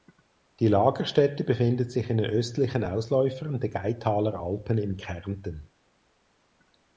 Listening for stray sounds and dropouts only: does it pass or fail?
pass